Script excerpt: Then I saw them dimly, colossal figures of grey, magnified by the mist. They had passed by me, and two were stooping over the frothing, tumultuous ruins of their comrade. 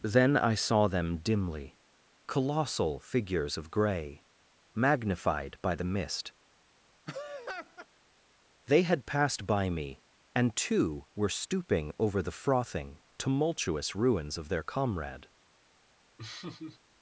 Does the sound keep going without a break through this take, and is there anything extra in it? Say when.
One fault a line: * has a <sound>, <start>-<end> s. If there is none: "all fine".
* has a laugh, 7.1-7.9 s
* has a laugh, 16.2-16.8 s